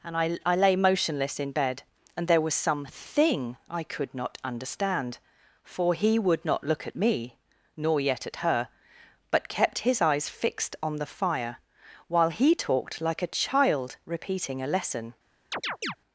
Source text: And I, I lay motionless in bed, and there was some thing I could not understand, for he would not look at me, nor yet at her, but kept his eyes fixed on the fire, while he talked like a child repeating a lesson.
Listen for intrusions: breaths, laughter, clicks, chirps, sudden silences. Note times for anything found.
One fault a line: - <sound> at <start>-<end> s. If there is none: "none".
- chirp at 15.5-16.0 s